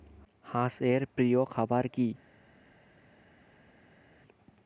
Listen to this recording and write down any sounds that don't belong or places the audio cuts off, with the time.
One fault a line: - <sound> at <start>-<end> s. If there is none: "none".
none